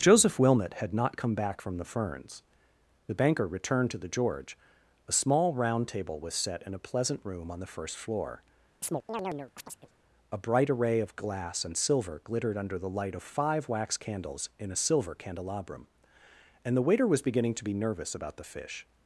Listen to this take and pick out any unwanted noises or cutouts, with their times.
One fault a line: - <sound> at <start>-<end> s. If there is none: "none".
- chirp at 8.8-9.9 s